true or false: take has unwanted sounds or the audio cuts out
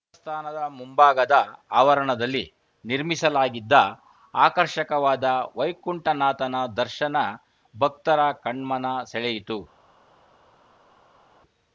false